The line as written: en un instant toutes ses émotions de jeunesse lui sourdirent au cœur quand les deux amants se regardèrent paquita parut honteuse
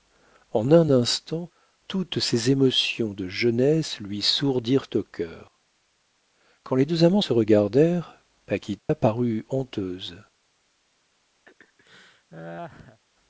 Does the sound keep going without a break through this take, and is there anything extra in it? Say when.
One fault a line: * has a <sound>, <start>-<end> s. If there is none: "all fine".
* has a dropout, 8.8-8.9 s
* has a laugh, 11.5-13.0 s